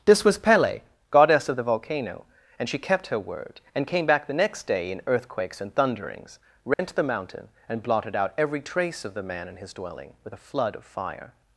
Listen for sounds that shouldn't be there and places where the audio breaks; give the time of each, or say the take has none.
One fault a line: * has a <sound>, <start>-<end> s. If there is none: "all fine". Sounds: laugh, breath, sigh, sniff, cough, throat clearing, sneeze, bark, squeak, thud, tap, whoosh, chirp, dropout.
* has a dropout, 6.7-6.8 s